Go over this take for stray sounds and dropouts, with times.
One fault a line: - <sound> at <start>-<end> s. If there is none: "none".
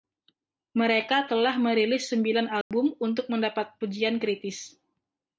- dropout at 2.6-2.7 s